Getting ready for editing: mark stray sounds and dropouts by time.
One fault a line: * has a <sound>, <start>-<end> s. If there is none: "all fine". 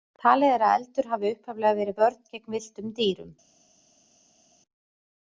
all fine